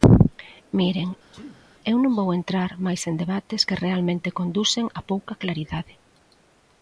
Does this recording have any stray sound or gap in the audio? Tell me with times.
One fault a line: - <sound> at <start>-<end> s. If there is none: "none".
- sneeze at 1.3-1.7 s